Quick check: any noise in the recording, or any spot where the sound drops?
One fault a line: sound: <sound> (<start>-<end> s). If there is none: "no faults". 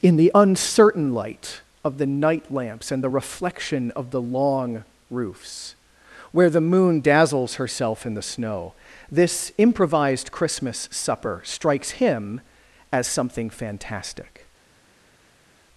no faults